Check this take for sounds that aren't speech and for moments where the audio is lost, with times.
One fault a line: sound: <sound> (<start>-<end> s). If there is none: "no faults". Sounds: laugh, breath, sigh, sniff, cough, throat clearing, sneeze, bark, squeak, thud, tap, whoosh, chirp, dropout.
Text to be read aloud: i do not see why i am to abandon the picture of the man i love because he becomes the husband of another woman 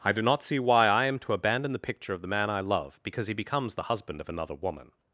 no faults